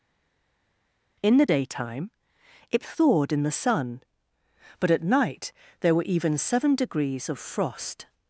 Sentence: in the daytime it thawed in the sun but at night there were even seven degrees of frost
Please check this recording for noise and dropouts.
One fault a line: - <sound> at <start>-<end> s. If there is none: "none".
none